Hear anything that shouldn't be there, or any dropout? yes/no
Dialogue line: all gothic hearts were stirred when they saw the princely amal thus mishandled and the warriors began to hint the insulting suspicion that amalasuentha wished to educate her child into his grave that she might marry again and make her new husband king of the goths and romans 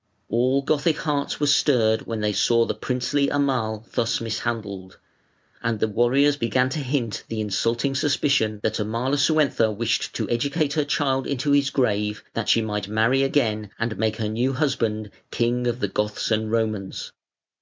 no